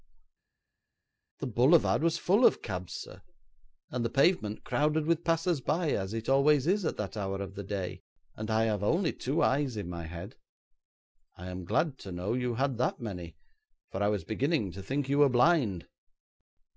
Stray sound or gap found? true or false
false